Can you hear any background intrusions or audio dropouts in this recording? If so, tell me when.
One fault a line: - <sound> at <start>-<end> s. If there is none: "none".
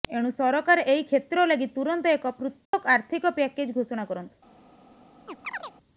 - dropout at 2.7-2.7 s
- chirp at 5.3-5.7 s